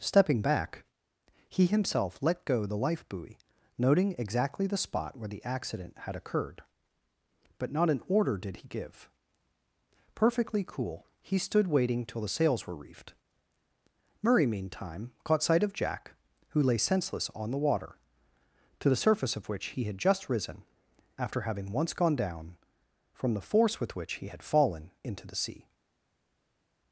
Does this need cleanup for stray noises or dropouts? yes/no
no